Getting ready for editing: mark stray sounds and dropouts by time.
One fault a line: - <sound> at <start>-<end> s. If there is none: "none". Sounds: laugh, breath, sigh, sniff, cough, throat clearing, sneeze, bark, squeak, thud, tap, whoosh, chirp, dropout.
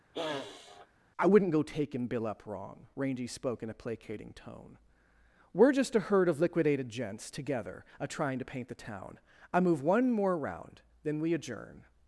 - sniff at 0.1-0.9 s